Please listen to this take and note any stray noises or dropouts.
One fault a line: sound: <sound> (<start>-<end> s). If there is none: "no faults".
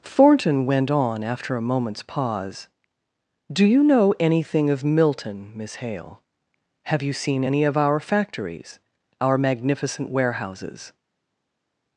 no faults